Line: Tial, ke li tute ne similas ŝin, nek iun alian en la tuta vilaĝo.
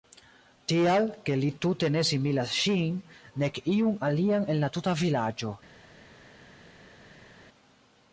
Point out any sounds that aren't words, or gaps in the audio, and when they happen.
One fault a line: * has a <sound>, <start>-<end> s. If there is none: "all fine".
all fine